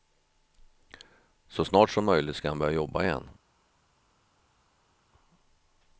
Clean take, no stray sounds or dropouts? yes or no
yes